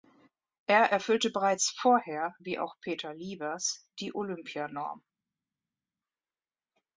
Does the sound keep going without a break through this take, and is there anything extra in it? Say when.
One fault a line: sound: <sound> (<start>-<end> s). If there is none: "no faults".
no faults